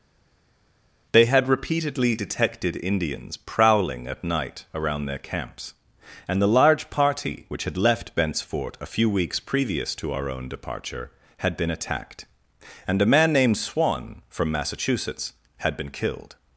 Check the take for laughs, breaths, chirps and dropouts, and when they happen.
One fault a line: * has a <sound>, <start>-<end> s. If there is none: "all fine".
all fine